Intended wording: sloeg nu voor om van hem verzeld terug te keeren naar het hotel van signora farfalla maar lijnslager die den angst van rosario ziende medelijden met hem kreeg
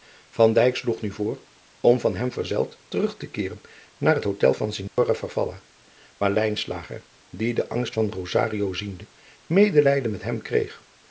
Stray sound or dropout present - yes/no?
yes